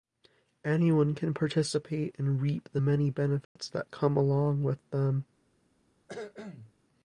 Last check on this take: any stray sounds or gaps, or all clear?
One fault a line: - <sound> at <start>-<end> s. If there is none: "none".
- dropout at 3.4-3.6 s
- cough at 6.1-6.7 s